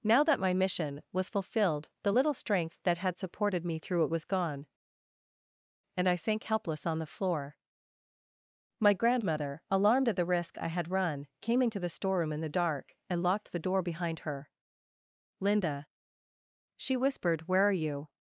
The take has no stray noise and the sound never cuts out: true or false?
true